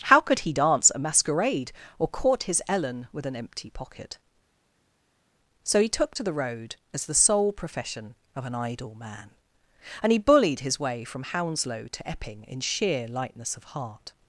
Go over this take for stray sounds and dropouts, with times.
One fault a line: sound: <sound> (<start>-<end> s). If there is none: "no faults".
no faults